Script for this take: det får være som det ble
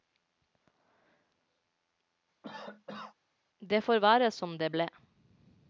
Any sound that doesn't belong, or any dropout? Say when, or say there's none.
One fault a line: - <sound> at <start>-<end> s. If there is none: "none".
- cough at 2.4-3.1 s